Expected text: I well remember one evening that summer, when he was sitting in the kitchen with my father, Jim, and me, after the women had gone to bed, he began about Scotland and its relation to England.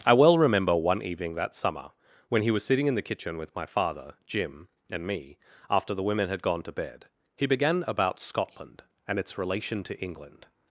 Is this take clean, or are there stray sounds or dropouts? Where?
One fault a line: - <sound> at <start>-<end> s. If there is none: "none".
none